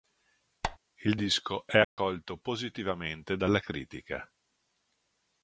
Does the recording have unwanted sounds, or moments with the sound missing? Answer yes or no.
yes